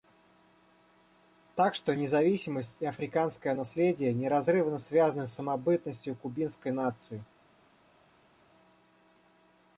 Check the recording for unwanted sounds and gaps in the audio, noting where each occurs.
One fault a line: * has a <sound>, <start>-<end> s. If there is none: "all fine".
all fine